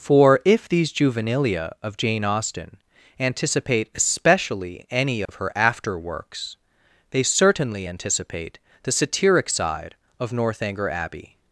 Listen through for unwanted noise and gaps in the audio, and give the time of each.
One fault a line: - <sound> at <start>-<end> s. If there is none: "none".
- dropout at 5.3-5.3 s